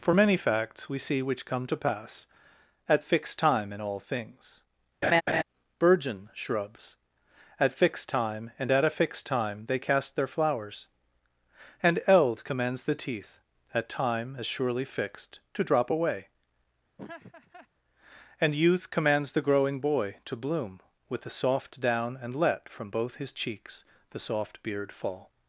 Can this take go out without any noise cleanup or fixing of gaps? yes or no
no